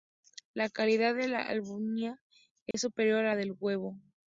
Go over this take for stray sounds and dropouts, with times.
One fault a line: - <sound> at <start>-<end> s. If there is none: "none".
- dropout at 2.7-2.7 s